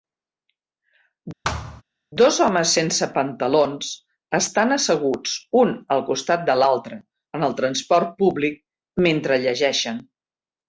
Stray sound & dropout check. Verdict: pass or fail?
fail